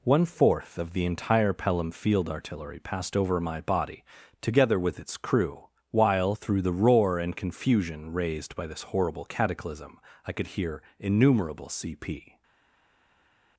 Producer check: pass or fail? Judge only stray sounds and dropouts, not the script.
pass